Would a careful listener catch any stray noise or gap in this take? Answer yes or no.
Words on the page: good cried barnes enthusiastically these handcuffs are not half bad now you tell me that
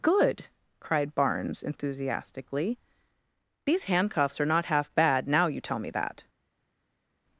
no